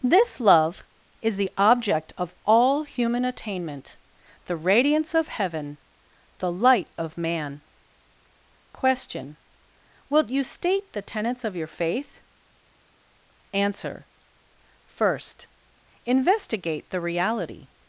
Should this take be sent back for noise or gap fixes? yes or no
no